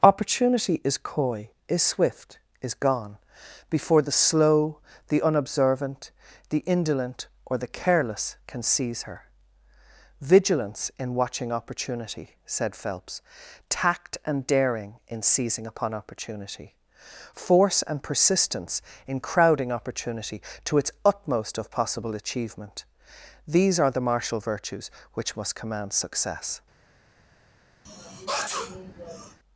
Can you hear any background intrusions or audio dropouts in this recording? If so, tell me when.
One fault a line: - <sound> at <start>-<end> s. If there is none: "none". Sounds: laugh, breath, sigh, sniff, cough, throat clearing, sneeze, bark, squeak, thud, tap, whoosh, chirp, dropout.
- sneeze at 27.8-29.4 s